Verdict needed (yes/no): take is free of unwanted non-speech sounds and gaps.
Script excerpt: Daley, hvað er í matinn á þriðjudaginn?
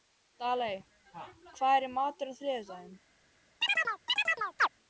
no